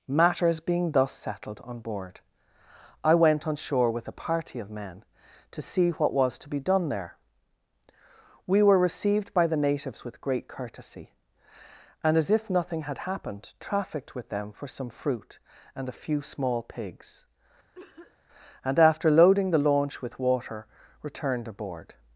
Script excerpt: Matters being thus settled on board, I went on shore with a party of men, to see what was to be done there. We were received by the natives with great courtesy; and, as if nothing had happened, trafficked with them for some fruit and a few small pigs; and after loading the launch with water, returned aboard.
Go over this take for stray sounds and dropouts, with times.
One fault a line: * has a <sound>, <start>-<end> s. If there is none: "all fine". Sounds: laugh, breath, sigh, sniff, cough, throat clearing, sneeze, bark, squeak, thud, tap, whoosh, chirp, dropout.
* has a cough, 17.7-18.2 s